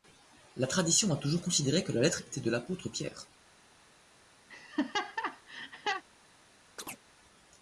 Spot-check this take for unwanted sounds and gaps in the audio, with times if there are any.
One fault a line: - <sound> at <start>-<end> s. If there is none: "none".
- laugh at 4.5-6.0 s
- chirp at 6.8-7.0 s